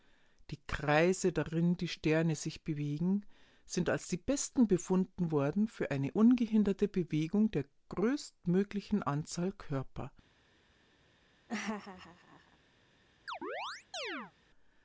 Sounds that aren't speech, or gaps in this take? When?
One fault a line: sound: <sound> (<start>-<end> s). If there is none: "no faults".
sound: laugh (11.5-12.6 s)
sound: chirp (13.3-14.3 s)